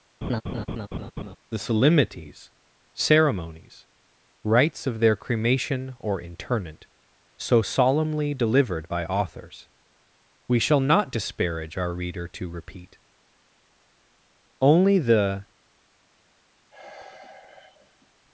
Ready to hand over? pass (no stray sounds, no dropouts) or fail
fail